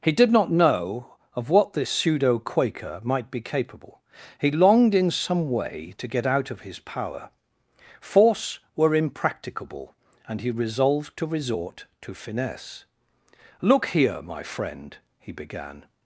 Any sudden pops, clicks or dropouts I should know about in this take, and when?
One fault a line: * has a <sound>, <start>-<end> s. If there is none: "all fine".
all fine